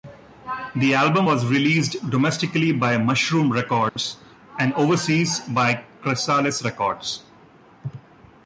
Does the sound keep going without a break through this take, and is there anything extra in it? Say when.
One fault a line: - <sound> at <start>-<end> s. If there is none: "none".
- dropout at 3.9-4.0 s